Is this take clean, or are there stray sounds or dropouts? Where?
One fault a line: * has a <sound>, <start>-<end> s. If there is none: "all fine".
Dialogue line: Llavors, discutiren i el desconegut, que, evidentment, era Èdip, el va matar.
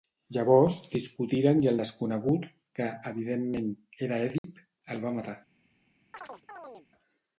* has a dropout, 4.4-4.4 s
* has a chirp, 6.1-6.9 s